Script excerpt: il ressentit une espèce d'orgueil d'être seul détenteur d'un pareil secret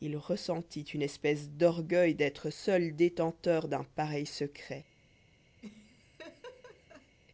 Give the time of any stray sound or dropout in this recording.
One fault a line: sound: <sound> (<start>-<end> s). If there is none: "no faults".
sound: laugh (5.6-7.2 s)